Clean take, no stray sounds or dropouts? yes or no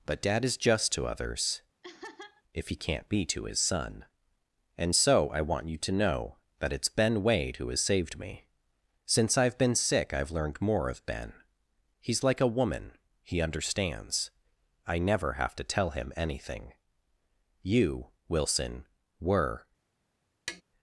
no